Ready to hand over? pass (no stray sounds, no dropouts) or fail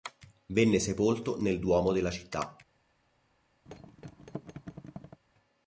fail